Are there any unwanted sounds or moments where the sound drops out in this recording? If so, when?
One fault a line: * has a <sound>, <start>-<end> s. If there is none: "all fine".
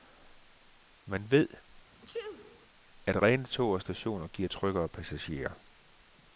* has a sneeze, 1.9-2.7 s